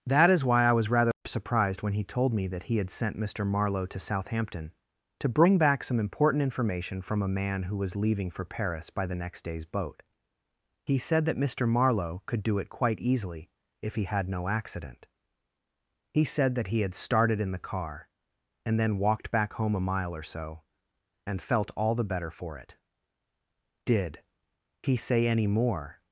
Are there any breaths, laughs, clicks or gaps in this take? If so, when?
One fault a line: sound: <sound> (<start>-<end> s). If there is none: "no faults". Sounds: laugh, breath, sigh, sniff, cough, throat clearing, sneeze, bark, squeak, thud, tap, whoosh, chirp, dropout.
no faults